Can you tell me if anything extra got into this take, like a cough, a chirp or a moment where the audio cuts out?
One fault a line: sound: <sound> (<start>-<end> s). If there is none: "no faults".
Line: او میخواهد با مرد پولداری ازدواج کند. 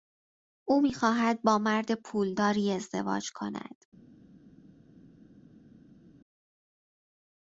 no faults